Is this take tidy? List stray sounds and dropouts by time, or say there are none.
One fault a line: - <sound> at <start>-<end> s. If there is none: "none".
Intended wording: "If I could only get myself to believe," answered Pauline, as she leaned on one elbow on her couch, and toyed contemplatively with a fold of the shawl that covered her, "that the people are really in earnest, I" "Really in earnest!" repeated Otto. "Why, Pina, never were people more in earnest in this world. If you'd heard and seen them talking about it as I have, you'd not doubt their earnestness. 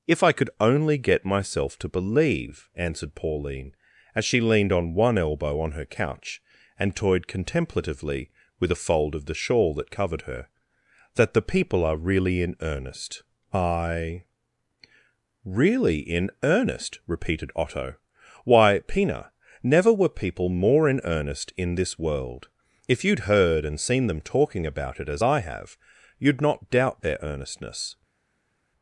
none